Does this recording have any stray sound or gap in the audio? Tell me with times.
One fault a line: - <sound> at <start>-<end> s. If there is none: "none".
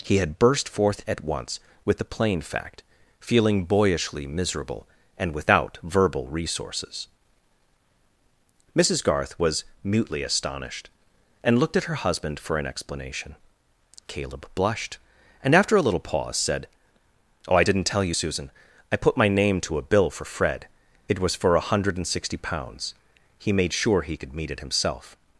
none